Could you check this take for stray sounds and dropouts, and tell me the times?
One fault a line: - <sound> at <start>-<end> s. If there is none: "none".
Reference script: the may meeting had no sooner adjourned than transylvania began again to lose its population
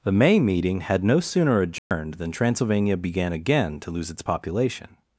- dropout at 1.8-1.9 s